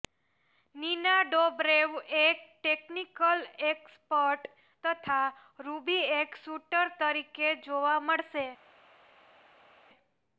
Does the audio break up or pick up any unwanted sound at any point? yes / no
no